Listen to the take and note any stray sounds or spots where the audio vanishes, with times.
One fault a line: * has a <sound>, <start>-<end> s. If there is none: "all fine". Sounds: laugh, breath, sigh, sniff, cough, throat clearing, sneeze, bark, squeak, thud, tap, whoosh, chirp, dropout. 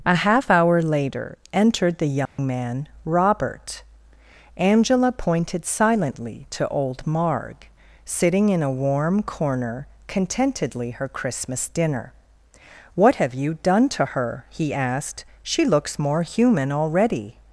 * has a dropout, 2.3-2.4 s